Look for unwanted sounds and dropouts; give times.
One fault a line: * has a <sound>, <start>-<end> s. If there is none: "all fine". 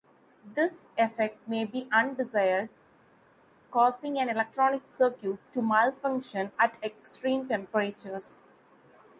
all fine